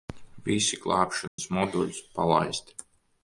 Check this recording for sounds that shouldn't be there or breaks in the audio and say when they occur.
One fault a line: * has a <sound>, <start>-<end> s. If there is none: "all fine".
* has a dropout, 1.3-1.4 s